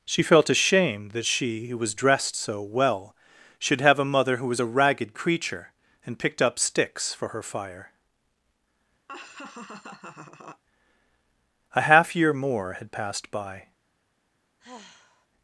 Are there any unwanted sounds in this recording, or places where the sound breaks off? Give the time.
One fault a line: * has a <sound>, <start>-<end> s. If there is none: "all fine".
* has a laugh, 9.1-10.6 s
* has a sigh, 14.6-15.3 s